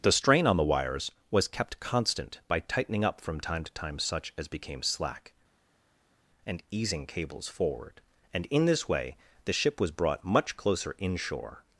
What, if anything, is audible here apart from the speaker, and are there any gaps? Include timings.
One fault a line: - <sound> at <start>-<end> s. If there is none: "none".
none